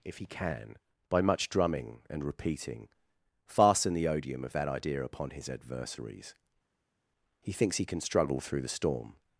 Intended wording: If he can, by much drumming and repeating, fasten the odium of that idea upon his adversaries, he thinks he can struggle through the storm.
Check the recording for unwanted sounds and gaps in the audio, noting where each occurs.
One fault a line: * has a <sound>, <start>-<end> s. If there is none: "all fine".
all fine